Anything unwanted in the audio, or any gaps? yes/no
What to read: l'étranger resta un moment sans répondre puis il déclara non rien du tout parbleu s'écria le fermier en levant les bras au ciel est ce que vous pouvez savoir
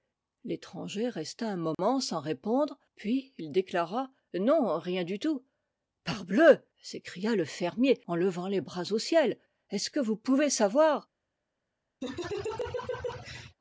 yes